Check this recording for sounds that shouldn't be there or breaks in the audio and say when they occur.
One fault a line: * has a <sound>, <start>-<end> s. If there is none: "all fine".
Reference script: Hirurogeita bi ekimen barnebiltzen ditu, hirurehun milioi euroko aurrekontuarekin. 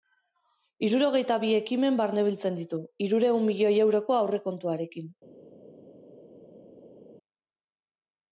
all fine